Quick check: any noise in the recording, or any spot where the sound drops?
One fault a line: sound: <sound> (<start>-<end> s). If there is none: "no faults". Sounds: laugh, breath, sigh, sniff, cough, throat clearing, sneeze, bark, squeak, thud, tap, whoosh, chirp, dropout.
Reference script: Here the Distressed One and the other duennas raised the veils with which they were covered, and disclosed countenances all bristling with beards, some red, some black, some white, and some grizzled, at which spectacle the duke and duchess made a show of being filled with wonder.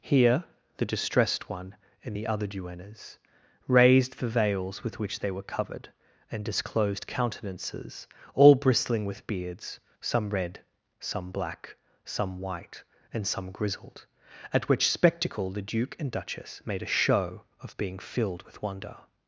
no faults